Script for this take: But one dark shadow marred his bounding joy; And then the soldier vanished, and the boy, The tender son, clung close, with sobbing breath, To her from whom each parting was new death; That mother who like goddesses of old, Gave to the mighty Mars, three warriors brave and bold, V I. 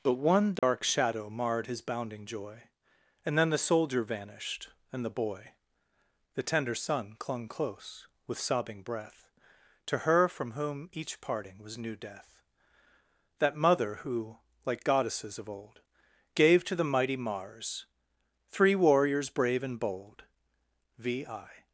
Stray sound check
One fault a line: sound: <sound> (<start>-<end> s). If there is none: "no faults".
sound: dropout (0.6-0.6 s)